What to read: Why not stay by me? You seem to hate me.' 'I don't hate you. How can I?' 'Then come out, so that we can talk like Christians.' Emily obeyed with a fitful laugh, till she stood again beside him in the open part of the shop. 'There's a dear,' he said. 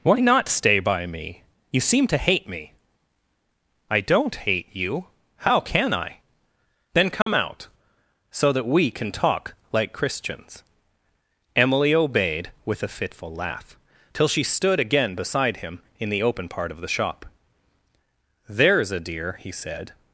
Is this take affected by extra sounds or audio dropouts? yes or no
yes